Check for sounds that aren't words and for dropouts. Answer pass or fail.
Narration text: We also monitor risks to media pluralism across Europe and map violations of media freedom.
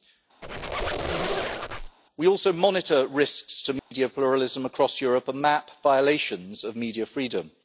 fail